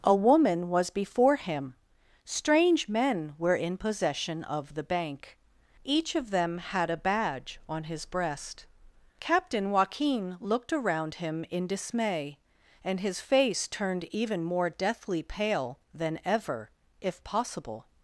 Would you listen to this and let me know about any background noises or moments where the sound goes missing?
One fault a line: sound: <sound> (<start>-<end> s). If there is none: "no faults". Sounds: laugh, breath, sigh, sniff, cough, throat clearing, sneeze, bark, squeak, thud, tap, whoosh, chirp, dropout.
no faults